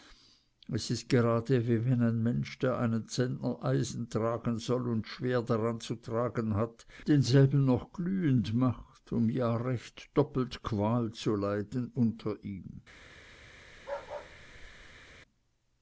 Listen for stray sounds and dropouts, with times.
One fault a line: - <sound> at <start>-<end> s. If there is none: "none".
- bark at 13.7-15.1 s